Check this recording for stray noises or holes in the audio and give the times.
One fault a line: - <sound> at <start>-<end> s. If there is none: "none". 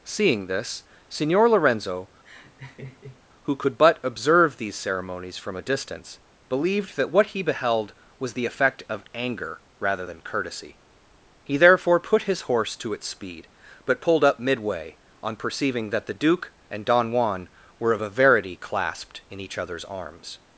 - laugh at 2.2-3.2 s